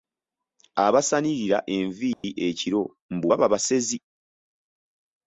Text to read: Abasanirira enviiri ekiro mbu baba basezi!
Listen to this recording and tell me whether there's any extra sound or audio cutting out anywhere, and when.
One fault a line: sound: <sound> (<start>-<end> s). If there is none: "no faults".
sound: dropout (2.1-2.2 s)